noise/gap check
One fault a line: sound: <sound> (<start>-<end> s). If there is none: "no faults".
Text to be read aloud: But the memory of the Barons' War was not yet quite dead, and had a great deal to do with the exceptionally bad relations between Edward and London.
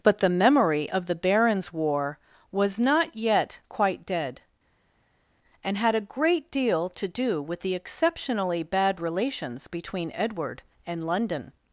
no faults